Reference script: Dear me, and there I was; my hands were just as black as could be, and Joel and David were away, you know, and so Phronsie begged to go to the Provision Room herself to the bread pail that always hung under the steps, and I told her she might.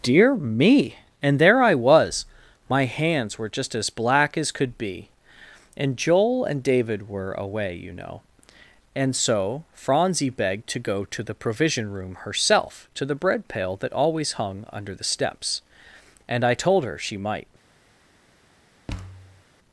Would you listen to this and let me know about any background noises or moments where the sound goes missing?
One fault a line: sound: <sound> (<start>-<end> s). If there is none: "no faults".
sound: thud (18.9-19.4 s)